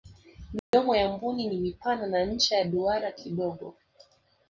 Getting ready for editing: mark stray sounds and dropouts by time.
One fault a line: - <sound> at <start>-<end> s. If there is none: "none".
- dropout at 0.6-0.7 s